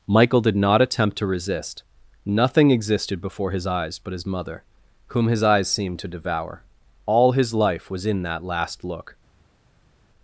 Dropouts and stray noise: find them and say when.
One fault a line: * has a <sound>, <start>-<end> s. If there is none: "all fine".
all fine